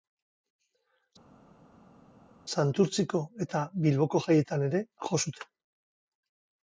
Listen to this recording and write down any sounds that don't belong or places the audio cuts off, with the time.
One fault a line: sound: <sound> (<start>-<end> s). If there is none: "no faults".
no faults